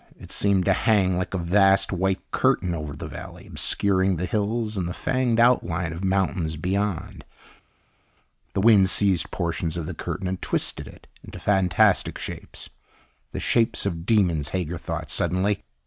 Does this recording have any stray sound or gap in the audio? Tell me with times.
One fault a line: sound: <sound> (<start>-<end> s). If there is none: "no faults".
no faults